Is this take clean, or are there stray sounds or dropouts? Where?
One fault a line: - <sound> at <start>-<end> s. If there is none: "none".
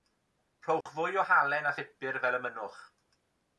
- dropout at 0.8-0.9 s